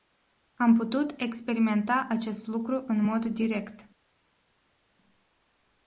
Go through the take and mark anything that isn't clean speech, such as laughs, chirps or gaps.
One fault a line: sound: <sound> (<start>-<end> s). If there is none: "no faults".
no faults